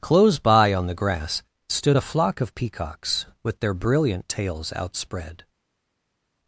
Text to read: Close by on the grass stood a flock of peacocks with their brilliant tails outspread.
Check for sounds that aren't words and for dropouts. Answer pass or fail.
pass